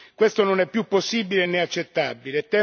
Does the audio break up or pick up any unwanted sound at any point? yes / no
no